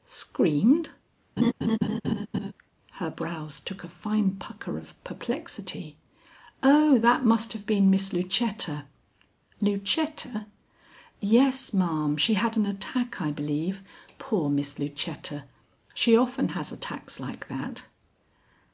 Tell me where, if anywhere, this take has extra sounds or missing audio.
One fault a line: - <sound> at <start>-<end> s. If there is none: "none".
- laugh at 1.4-2.5 s